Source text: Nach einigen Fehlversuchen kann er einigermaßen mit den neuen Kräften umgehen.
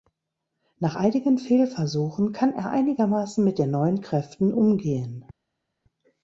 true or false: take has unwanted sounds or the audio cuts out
false